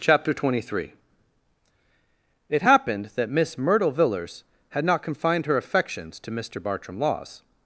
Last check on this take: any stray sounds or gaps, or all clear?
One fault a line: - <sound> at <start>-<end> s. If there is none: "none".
none